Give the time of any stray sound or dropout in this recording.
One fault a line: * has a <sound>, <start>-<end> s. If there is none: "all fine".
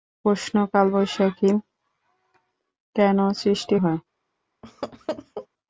* has a laugh, 4.6-5.5 s